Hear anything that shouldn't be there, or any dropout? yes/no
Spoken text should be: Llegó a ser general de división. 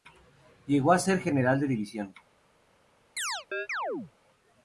yes